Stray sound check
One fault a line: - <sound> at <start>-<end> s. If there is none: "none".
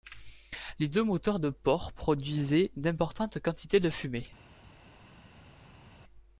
none